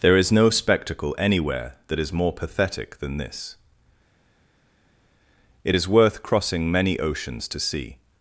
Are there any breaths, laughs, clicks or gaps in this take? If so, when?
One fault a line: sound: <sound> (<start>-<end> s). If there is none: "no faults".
no faults